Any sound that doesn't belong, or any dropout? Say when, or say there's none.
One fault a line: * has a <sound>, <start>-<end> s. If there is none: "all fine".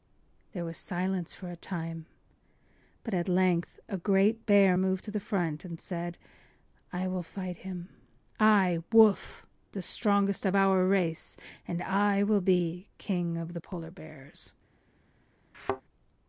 * has a thud, 15.5-15.8 s